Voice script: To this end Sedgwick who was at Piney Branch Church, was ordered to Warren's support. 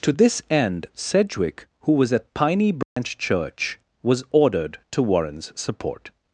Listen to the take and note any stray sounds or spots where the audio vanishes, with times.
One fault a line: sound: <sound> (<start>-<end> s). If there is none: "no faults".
sound: dropout (2.8-3.0 s)